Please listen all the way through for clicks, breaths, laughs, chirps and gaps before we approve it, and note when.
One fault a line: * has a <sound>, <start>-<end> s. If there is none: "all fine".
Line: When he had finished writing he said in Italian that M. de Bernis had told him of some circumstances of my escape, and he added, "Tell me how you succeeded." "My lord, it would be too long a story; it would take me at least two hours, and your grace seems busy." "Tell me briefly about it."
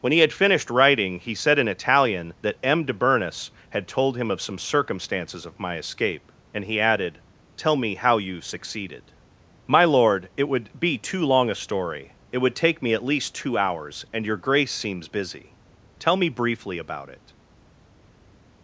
all fine